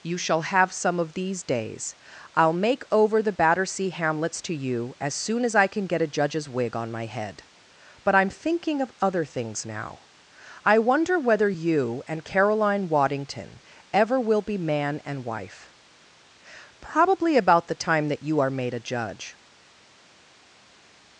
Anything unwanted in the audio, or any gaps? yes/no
no